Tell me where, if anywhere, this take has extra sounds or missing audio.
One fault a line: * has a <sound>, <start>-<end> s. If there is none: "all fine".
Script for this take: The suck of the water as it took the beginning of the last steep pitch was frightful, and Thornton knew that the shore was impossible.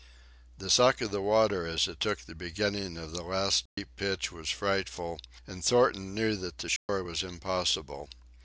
* has a dropout, 3.7-3.8 s
* has a dropout, 6.8-6.9 s